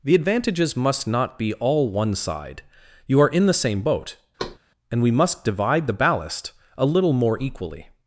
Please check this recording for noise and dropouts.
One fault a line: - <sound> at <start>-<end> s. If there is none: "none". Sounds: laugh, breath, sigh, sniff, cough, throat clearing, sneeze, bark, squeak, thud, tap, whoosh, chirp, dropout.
- thud at 4.4-4.6 s